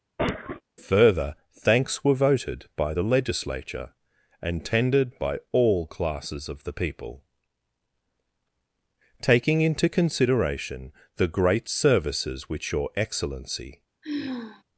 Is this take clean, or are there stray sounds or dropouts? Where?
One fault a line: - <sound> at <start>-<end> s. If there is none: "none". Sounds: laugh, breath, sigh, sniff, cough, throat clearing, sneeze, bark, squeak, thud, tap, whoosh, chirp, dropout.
- cough at 0.2-0.6 s
- sigh at 14.0-14.6 s